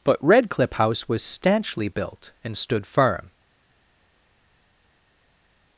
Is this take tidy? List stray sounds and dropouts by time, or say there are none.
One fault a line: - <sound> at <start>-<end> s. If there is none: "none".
none